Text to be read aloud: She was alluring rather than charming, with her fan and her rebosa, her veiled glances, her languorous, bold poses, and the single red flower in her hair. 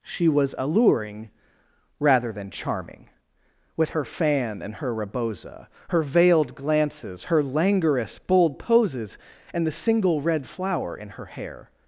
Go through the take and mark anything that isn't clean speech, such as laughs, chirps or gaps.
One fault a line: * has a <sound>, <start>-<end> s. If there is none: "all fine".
all fine